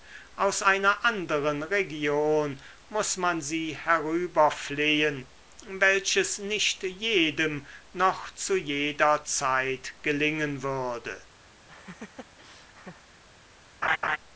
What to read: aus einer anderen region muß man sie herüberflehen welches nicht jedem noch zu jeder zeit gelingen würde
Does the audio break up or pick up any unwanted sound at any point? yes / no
yes